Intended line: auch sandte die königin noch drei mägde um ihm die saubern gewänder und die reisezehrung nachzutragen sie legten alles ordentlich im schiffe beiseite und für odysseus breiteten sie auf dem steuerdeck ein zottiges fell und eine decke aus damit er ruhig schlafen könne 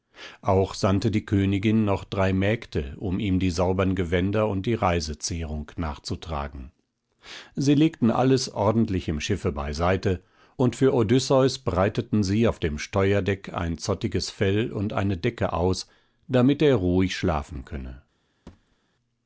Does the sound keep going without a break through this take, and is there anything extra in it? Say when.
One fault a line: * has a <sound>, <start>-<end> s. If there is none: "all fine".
* has a thud, 18.5-18.8 s